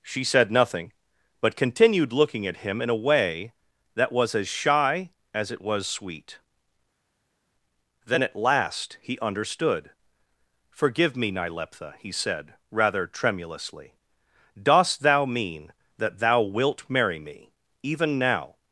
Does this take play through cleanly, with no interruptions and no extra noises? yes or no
yes